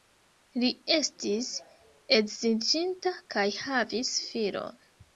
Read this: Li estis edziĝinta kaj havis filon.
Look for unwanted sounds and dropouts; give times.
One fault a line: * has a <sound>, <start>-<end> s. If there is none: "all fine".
all fine